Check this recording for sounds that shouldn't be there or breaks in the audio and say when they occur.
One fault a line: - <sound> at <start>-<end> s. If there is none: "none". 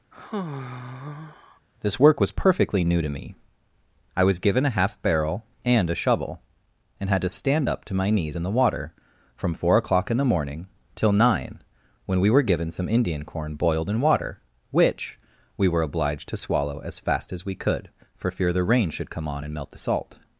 - sigh at 0.1-1.6 s